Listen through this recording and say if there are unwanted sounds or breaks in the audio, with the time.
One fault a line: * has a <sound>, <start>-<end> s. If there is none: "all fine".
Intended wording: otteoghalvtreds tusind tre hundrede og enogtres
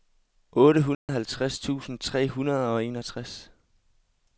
* has a dropout, 0.9-1.1 s